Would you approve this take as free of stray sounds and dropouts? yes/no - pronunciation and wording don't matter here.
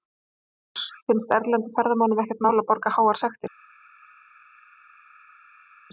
yes